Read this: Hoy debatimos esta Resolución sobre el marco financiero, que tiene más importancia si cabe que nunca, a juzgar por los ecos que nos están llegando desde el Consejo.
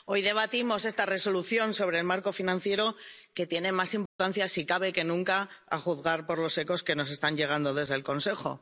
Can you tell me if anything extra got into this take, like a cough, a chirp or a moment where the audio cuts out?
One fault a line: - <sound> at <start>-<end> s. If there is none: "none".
- dropout at 4.1-4.2 s